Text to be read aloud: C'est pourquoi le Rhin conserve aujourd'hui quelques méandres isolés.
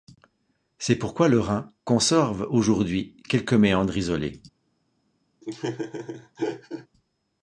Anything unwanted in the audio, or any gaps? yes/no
yes